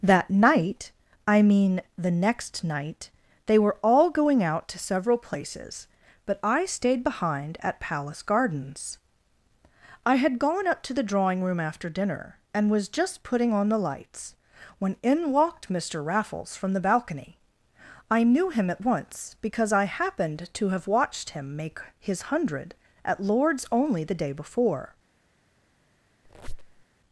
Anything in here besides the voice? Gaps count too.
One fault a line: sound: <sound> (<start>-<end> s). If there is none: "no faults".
sound: squeak (26.2-26.8 s)